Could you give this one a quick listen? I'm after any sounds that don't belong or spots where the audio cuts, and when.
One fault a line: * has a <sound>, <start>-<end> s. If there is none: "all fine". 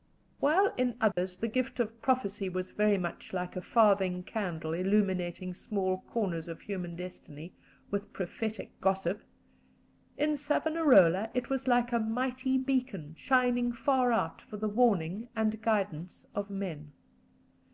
* has a dropout, 1.1-1.2 s